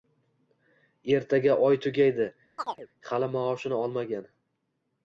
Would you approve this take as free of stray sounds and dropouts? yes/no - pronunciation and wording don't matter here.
no